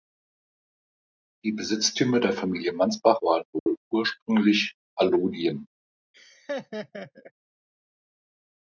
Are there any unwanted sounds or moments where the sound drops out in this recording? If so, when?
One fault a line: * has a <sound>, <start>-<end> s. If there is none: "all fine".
* has a dropout, 3.6-3.7 s
* has a laugh, 6.1-7.3 s